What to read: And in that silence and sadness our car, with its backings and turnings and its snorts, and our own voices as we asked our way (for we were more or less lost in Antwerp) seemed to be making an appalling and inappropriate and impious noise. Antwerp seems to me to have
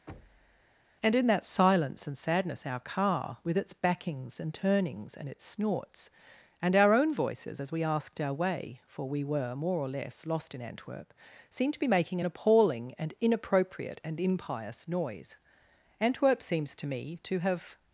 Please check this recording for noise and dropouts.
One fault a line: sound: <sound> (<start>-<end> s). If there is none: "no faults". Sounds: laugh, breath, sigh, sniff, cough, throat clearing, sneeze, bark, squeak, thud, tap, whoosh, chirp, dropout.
sound: thud (0.1-0.6 s)